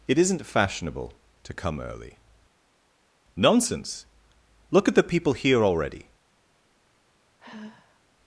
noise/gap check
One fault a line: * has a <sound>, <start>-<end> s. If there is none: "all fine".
* has a sigh, 7.4-8.0 s